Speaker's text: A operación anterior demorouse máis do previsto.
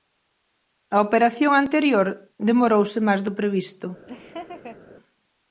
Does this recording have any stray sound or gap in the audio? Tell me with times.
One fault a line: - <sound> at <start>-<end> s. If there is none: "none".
- laugh at 4.1-4.8 s